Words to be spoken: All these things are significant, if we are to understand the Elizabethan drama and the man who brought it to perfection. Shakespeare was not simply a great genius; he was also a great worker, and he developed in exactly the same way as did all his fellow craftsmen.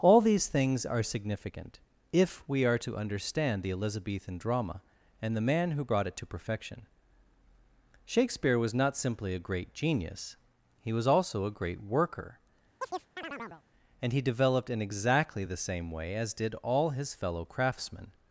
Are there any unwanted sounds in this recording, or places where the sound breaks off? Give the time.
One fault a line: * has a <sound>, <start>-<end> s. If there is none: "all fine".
* has a chirp, 12.8-13.6 s